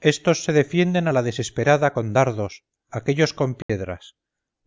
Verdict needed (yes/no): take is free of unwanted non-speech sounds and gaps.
no